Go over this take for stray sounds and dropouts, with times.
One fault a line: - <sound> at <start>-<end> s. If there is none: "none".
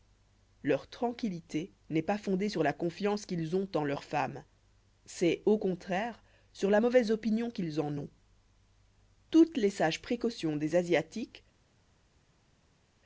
none